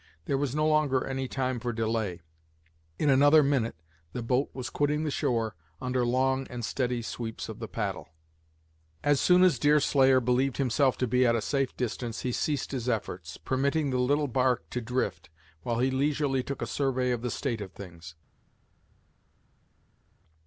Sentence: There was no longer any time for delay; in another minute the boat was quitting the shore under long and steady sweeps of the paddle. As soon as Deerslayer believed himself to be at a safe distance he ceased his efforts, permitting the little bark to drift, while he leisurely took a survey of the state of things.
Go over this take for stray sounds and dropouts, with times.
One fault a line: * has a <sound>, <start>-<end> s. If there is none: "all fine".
all fine